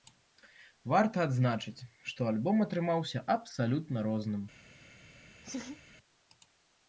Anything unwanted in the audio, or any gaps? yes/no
yes